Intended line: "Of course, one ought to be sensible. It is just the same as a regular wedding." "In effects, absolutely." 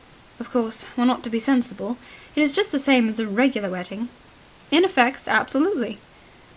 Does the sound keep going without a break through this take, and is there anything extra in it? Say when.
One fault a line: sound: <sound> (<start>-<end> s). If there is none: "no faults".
no faults